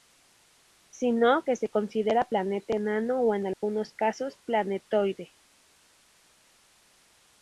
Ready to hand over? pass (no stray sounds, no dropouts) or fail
fail